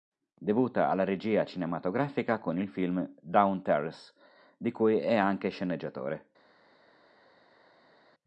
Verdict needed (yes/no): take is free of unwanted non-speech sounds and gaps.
yes